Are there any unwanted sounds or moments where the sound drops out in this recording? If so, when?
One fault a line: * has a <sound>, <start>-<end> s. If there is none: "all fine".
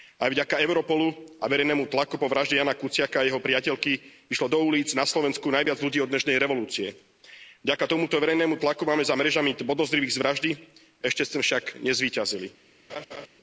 * has a laugh, 12.9-13.3 s